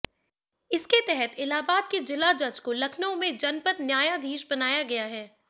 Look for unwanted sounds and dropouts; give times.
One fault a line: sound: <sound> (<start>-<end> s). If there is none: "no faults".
no faults